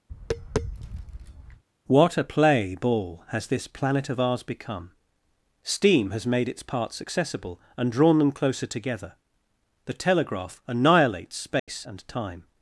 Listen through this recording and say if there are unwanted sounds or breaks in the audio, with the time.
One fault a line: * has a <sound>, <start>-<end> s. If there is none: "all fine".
* has a tap, 0.1-1.6 s
* has a dropout, 11.6-11.7 s